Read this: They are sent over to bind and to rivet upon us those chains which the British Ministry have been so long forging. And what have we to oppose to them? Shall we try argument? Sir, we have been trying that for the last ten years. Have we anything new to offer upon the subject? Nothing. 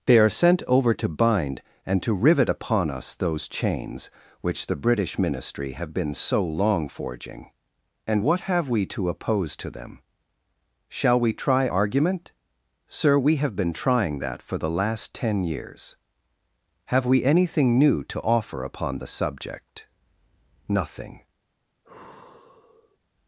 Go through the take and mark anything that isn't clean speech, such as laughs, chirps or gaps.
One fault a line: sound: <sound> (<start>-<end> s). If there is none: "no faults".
sound: sigh (21.8-23.0 s)